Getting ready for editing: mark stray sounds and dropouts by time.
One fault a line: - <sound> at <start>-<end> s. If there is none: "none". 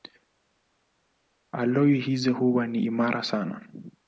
none